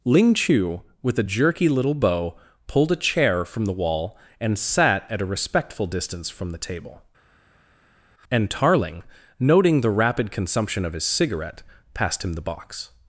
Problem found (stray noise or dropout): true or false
false